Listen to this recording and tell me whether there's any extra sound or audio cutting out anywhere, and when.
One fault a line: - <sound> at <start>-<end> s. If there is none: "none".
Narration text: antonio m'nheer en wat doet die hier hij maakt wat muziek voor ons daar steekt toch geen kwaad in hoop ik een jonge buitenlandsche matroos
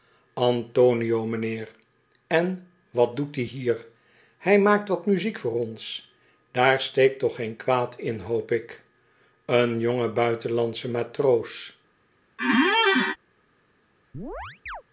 - squeak at 12.4-13.2 s
- chirp at 14.1-14.8 s